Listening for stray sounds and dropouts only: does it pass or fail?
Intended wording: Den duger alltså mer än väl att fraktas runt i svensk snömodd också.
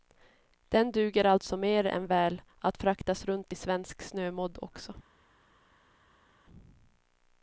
pass